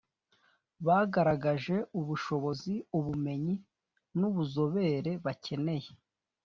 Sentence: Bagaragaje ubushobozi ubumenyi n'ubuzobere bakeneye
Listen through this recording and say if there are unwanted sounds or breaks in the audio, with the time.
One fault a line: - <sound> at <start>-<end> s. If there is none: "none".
none